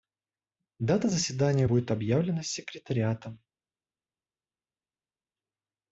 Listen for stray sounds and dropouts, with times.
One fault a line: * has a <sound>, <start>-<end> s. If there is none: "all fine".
all fine